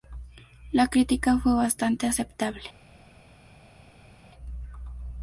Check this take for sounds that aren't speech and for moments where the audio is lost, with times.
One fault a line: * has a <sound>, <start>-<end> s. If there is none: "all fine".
all fine